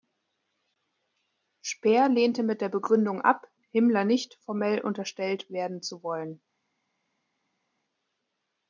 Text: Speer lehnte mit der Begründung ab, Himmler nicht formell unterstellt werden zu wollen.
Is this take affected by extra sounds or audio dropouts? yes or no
no